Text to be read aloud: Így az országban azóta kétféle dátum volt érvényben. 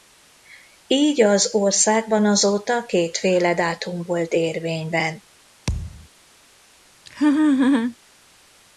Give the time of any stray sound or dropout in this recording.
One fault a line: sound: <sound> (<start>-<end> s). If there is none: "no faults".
sound: thud (5.7-6.1 s)
sound: laugh (7.1-8.0 s)